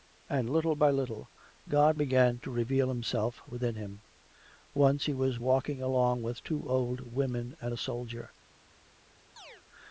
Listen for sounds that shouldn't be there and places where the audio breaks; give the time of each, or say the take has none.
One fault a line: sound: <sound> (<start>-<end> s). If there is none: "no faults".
sound: chirp (9.4-9.6 s)